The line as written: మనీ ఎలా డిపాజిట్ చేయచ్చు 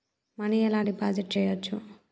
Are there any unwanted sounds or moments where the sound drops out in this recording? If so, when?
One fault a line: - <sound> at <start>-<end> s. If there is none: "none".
none